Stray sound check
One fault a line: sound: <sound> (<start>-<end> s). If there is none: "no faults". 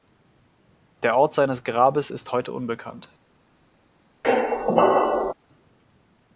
sound: squeak (4.2-5.3 s)